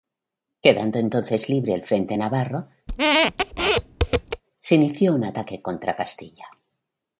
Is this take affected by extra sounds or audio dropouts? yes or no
yes